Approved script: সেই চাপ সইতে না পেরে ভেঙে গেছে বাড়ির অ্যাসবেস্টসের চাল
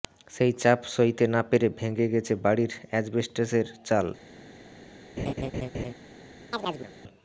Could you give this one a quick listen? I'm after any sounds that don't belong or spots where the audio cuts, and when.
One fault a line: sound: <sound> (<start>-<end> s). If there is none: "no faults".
sound: laugh (5.2-5.9 s)
sound: chirp (6.5-6.9 s)